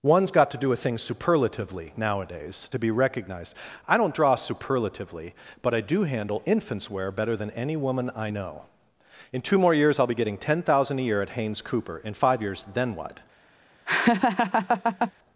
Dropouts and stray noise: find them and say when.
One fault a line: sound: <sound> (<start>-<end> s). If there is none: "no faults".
sound: laugh (13.9-15.1 s)